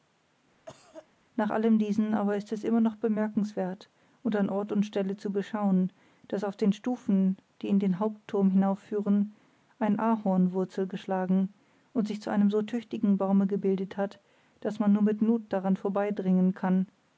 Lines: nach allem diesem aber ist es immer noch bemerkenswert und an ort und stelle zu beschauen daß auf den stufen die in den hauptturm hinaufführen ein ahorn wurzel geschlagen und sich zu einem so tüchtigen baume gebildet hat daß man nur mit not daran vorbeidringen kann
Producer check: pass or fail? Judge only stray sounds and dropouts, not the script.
fail